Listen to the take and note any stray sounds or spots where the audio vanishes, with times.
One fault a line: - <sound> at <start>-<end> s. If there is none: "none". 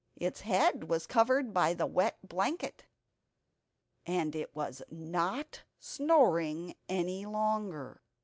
none